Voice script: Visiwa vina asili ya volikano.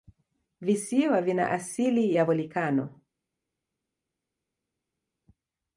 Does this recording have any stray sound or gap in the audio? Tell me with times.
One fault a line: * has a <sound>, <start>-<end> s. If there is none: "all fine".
all fine